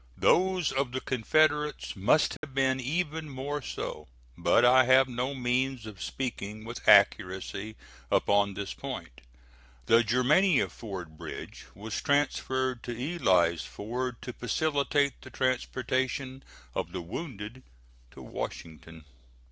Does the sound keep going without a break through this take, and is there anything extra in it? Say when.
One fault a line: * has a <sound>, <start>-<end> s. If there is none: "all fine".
* has a dropout, 2.4-2.4 s